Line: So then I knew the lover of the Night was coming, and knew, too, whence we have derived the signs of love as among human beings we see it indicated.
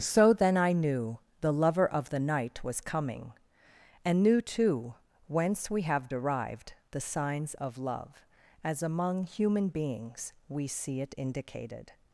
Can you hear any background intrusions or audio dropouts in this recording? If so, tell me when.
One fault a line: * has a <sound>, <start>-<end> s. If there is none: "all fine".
all fine